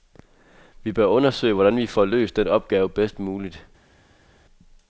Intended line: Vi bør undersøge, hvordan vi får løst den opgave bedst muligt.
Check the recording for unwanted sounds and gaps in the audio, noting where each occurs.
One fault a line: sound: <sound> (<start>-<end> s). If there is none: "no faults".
no faults